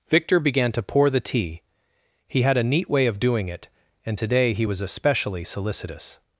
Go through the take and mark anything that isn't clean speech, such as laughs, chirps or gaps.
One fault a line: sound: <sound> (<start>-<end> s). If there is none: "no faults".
no faults